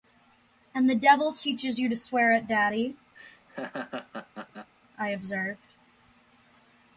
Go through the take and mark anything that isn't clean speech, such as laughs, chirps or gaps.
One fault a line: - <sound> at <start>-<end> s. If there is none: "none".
- laugh at 3.2-4.7 s